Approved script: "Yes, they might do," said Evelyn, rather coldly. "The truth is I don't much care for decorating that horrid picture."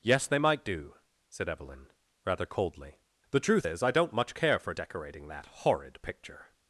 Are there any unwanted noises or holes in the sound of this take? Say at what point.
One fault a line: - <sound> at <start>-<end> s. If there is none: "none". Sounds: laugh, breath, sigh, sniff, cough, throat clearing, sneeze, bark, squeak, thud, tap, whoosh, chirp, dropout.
none